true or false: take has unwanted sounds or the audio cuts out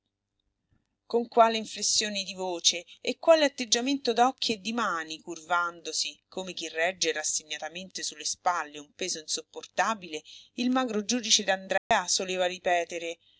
true